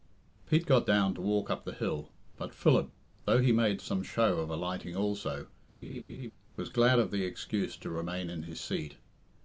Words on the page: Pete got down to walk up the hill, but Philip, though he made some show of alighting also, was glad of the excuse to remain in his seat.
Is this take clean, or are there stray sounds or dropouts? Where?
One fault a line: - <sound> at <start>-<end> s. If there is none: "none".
- laugh at 5.8-6.3 s